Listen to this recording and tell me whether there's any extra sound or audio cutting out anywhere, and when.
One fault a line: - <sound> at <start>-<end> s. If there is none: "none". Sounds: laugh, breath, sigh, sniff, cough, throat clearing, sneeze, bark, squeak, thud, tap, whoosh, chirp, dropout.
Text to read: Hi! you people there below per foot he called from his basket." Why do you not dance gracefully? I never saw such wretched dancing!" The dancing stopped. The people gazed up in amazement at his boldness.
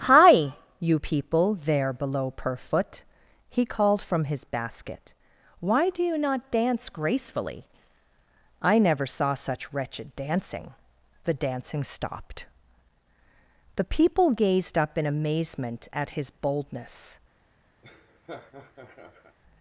- laugh at 17.8-19.4 s